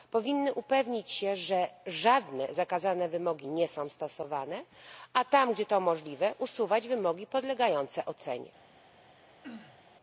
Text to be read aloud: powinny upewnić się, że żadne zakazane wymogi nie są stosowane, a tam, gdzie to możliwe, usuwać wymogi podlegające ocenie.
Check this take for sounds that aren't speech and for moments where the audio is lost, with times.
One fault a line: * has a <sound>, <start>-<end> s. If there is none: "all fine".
* has a throat clearing, 9.4-9.8 s